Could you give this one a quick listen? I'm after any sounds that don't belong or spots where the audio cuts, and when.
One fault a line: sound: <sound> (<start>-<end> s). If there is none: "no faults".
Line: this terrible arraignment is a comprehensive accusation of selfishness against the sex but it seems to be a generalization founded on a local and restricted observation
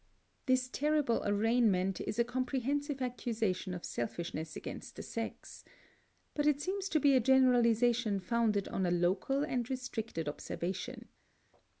no faults